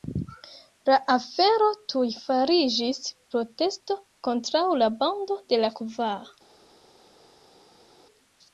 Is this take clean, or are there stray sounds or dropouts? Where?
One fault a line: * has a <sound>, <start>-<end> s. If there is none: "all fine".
all fine